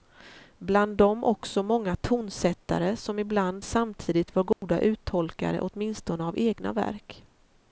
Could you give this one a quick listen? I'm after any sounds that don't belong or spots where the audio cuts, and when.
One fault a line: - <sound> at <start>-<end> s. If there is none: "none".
- dropout at 4.5-4.6 s